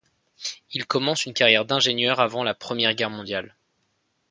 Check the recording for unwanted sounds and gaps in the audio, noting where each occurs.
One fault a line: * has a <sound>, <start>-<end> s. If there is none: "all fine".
all fine